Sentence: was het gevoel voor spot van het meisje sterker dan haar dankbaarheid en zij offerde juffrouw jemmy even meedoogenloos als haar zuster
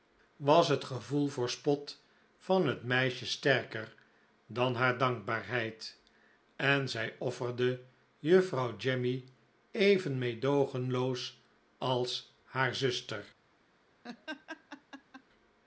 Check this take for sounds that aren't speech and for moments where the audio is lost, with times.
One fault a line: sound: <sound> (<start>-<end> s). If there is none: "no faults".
sound: laugh (14.0-15.2 s)